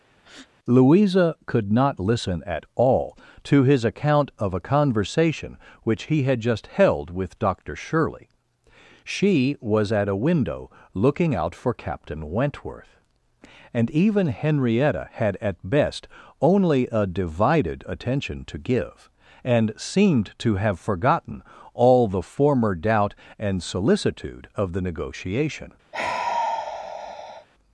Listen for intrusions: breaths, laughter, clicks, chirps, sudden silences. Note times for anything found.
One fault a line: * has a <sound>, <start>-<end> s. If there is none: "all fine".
* has a breath, 0.2-0.5 s
* has a sigh, 25.9-27.5 s